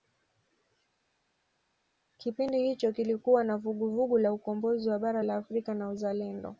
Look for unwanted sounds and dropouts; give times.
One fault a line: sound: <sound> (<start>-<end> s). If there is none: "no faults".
no faults